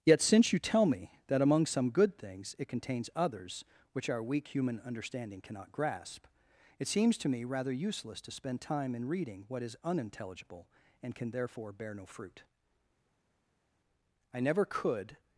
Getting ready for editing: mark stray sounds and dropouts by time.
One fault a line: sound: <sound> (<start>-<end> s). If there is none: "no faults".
no faults